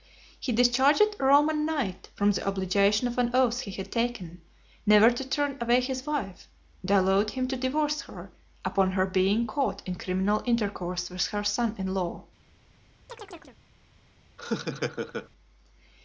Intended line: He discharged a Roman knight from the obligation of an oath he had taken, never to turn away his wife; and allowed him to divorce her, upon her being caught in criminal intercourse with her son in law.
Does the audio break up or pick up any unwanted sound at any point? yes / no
yes